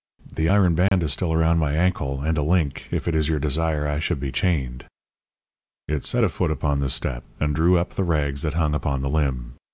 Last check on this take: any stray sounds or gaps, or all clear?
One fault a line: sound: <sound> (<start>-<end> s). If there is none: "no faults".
sound: dropout (0.9-0.9 s)